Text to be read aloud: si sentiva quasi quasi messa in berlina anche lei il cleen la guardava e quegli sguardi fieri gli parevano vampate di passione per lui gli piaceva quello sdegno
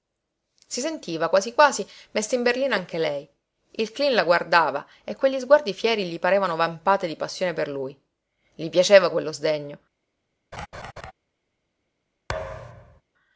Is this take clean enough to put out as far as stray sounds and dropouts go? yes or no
no